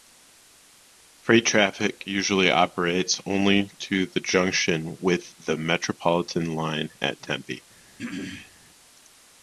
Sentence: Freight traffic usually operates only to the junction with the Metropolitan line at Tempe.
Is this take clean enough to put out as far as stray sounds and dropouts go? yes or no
no